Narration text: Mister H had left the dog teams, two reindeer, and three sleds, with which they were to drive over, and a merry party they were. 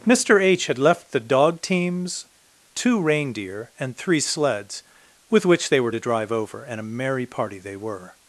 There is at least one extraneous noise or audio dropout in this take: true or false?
false